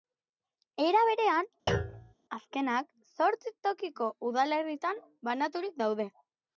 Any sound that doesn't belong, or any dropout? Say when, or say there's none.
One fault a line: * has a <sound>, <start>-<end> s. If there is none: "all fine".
* has a thud, 1.7-2.1 s